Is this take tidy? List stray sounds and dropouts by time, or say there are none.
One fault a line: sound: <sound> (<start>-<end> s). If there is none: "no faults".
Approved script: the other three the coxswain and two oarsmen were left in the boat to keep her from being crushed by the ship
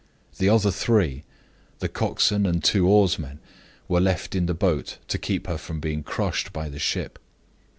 no faults